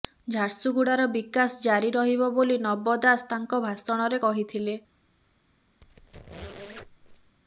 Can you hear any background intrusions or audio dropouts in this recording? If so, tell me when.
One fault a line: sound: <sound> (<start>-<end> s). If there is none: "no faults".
sound: squeak (5.8-7.4 s)